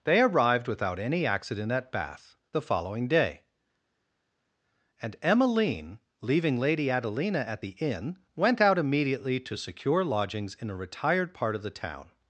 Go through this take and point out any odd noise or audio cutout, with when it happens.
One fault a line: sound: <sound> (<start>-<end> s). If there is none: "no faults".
no faults